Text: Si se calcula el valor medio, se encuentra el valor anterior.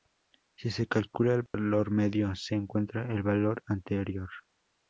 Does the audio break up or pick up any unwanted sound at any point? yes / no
yes